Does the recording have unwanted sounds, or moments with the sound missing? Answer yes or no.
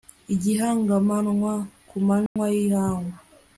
yes